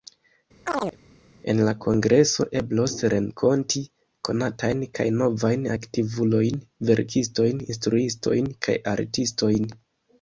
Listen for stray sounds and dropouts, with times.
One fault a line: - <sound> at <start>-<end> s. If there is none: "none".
- chirp at 0.7-1.0 s